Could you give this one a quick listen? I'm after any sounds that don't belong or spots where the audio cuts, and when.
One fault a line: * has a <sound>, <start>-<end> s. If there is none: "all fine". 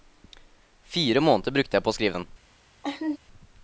* has a laugh, 2.8-3.2 s